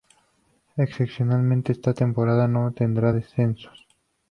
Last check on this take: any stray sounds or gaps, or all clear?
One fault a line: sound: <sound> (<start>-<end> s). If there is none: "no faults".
no faults